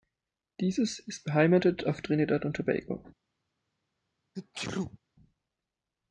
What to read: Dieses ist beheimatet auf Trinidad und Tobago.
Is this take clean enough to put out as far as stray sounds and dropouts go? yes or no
no